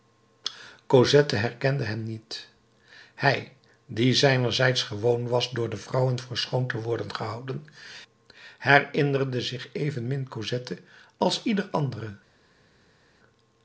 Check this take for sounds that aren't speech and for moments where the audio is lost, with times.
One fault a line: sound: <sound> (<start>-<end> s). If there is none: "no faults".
no faults